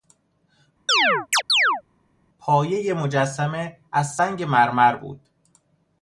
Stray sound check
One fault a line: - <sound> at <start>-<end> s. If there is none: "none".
- chirp at 0.9-1.8 s